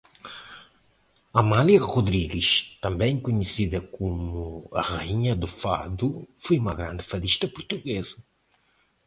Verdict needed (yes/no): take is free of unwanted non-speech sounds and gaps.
yes